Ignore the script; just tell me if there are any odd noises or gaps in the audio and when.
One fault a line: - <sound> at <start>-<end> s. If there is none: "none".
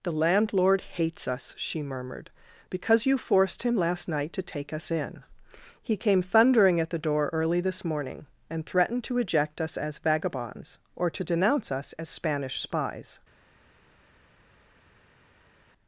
none